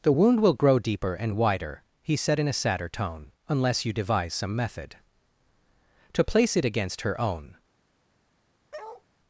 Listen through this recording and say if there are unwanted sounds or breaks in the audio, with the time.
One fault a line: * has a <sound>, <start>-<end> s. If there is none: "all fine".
* has a bark, 8.7-9.0 s